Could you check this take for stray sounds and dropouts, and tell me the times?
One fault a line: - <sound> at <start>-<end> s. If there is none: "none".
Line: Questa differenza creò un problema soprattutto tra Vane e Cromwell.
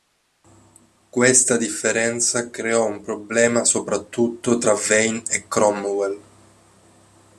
none